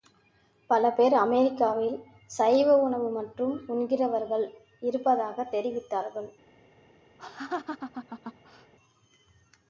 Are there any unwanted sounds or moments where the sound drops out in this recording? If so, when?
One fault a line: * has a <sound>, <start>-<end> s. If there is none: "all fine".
* has a laugh, 7.2-8.7 s